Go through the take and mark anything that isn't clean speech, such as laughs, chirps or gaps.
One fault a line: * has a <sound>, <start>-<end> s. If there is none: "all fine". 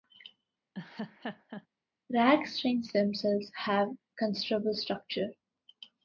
* has a laugh, 0.7-1.7 s